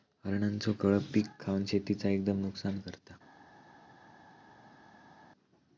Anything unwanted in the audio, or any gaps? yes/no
no